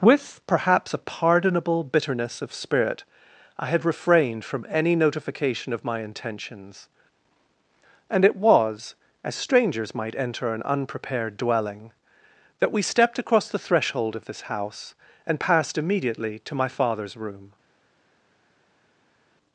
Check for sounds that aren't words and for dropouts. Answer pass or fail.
pass